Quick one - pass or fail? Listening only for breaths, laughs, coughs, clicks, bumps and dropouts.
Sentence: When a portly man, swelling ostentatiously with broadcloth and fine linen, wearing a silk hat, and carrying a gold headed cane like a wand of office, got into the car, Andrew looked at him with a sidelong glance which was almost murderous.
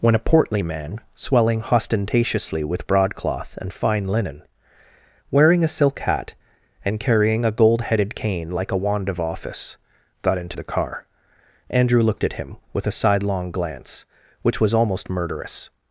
pass